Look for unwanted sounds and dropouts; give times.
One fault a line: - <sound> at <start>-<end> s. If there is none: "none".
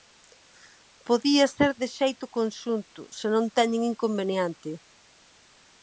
none